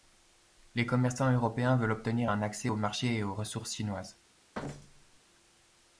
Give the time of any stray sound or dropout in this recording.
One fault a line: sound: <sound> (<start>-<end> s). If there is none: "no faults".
sound: thud (4.5-5.2 s)